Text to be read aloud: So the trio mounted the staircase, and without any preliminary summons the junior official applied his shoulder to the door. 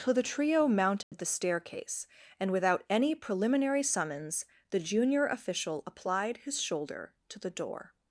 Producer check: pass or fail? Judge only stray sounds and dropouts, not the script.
fail